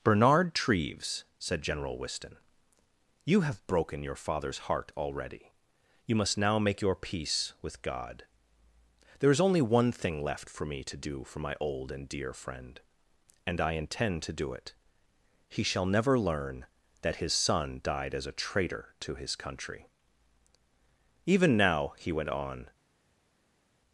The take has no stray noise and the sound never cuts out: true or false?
true